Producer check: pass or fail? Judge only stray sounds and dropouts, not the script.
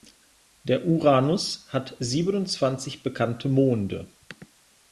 pass